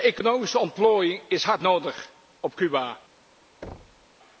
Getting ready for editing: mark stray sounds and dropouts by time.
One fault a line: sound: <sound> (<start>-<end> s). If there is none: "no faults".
sound: thud (3.6-4.1 s)